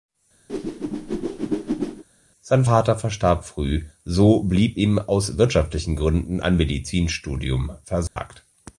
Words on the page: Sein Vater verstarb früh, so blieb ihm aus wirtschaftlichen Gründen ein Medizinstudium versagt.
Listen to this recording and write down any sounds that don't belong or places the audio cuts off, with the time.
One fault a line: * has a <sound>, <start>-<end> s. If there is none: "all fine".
* has a whoosh, 0.5-2.0 s
* has a dropout, 8.1-8.2 s